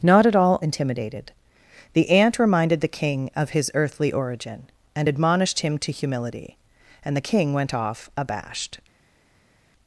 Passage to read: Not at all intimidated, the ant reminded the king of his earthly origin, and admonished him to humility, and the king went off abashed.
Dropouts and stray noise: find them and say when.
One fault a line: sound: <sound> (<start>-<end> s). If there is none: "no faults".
no faults